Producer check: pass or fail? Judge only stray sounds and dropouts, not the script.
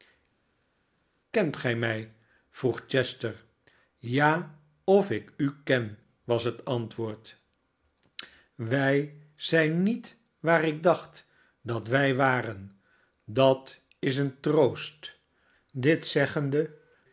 pass